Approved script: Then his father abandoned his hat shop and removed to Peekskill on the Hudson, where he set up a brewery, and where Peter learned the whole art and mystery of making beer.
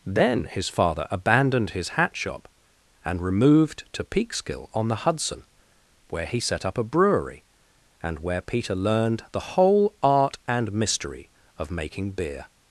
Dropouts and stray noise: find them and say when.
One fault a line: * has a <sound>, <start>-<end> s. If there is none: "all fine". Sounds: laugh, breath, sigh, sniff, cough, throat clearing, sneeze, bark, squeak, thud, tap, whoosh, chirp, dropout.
all fine